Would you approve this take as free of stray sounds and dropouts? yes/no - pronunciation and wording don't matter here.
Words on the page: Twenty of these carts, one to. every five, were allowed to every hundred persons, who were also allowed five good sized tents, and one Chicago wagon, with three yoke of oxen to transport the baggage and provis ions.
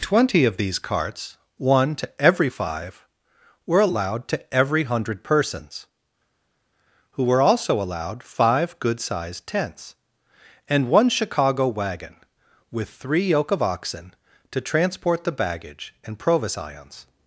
yes